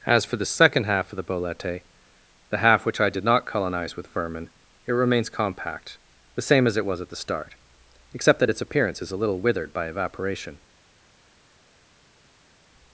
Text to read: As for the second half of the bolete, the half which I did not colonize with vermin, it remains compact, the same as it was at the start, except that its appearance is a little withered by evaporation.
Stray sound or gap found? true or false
false